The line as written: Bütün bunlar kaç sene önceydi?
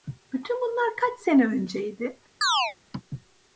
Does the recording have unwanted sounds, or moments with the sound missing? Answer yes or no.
yes